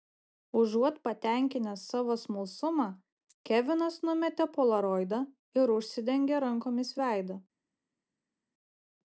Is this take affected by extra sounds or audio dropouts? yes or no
no